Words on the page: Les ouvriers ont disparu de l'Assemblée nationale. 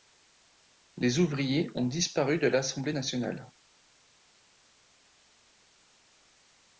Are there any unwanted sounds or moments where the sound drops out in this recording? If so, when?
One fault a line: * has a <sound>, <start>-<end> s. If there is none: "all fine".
all fine